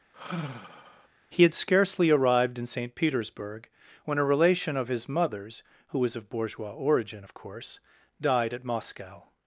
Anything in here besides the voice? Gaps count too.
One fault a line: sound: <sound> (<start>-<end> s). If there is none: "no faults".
sound: sigh (0.1-1.1 s)